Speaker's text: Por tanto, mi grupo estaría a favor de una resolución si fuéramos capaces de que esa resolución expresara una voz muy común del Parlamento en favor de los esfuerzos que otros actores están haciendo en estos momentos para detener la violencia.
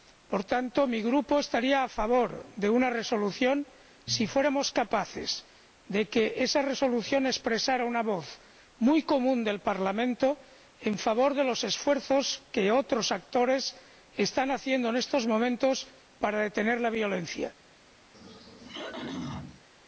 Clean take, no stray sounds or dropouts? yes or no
no